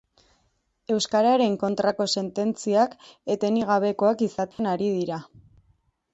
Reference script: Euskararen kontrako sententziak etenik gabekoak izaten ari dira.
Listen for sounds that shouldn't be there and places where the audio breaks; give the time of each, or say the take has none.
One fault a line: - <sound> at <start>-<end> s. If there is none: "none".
- dropout at 4.5-4.6 s